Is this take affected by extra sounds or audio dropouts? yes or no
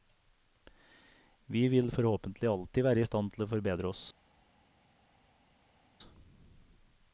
no